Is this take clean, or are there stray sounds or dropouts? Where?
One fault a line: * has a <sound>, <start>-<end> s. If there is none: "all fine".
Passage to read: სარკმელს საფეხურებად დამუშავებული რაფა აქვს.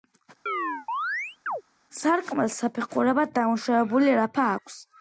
* has a chirp, 0.5-1.6 s